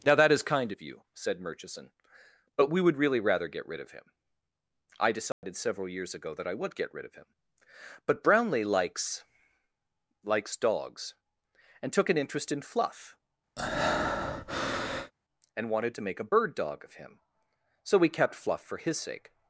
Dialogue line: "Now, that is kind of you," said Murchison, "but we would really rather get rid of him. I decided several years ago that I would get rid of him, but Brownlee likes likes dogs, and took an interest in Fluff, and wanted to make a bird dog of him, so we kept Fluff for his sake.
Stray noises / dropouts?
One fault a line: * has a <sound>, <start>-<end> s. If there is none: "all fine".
* has a dropout, 5.3-5.4 s
* has a breath, 13.6-15.1 s